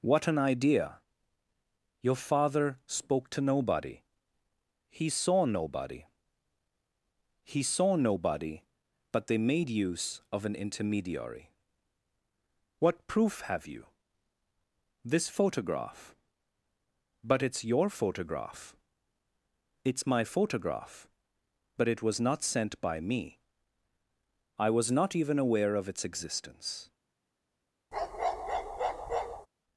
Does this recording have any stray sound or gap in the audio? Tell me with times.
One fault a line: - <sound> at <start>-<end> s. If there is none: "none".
- bark at 27.9-29.5 s